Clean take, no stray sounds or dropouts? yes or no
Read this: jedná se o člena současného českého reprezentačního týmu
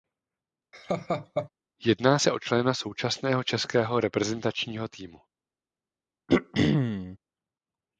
no